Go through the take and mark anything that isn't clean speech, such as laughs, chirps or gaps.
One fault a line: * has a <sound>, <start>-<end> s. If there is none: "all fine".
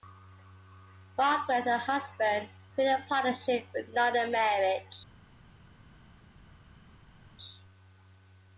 all fine